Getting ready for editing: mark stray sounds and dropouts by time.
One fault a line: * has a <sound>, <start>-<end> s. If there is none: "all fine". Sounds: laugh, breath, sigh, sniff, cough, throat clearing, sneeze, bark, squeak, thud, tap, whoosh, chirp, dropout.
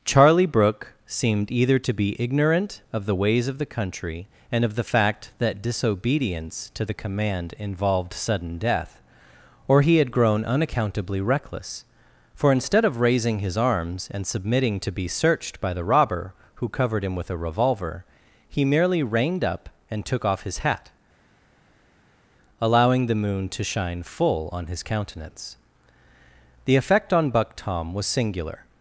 all fine